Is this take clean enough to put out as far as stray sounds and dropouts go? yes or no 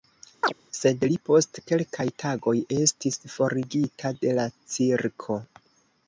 no